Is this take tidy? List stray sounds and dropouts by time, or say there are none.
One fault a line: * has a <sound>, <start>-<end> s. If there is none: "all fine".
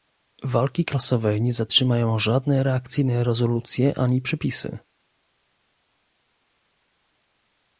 all fine